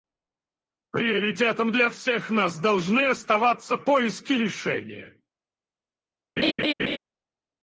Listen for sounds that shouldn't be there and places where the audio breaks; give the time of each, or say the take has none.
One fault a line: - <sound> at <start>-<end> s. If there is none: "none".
- laugh at 6.4-7.0 s